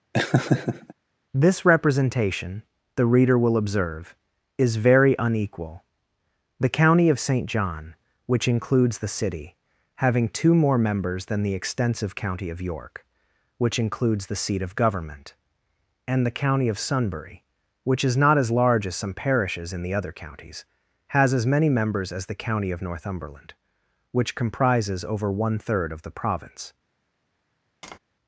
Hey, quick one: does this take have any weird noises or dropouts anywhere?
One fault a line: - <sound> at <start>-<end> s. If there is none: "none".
- laugh at 0.1-0.9 s
- tap at 27.8-28.0 s